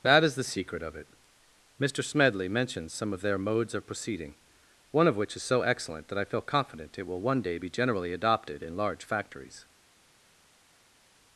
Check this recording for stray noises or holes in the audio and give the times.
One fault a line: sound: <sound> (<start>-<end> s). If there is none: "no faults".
no faults